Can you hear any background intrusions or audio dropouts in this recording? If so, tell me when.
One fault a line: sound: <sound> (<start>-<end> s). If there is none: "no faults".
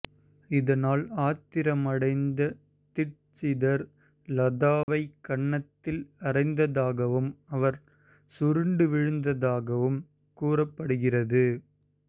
sound: dropout (4.8-4.9 s)